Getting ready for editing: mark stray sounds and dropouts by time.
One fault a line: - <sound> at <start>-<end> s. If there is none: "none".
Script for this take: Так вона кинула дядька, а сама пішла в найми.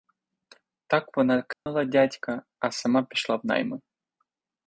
- dropout at 1.5-1.7 s